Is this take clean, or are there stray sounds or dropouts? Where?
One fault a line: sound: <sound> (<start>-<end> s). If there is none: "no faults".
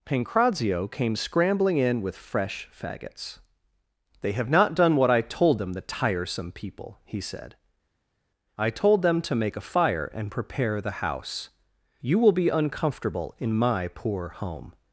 no faults